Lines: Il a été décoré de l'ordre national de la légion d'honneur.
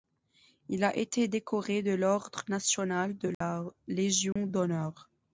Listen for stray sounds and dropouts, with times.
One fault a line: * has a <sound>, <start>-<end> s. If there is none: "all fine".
* has a dropout, 3.3-3.4 s
* has a dropout, 4.3-4.4 s